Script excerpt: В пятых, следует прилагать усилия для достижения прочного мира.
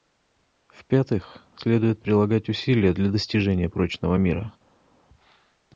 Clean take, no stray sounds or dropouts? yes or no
yes